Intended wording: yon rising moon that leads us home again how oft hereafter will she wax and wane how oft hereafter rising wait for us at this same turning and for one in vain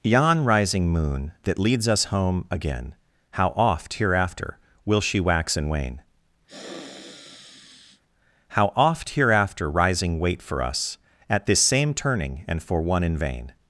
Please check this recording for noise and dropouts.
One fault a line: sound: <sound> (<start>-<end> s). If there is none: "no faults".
sound: sniff (6.5-8.0 s)